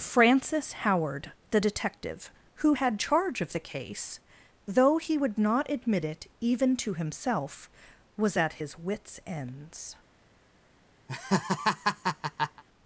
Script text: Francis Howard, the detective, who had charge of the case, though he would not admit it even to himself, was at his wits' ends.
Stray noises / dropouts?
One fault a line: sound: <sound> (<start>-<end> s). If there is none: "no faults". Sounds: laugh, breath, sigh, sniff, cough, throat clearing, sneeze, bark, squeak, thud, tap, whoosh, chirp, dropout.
sound: laugh (11.1-12.6 s)